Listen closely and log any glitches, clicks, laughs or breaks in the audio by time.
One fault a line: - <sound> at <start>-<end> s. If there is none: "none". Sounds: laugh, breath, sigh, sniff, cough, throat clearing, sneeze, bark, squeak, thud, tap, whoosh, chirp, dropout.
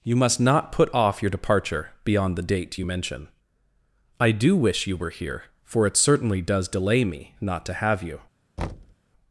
- thud at 8.6-9.0 s